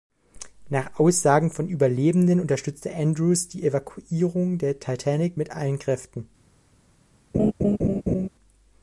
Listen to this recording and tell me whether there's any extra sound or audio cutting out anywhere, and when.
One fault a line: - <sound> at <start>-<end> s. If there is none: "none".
- laugh at 7.3-8.3 s